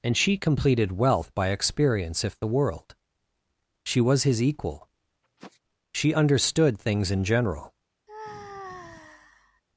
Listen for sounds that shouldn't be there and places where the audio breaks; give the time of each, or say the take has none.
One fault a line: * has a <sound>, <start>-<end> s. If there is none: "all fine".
* has a sniff, 5.2-5.6 s
* has a sigh, 8.1-9.6 s